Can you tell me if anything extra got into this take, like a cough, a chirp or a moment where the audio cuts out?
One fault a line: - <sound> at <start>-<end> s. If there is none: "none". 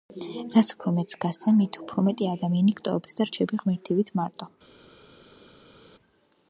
none